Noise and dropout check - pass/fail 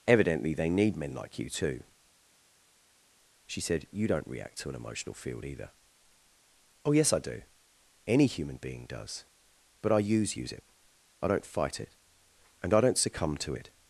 pass